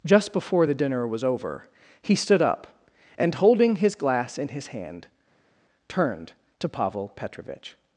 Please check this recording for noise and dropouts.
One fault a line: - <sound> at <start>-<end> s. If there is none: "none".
none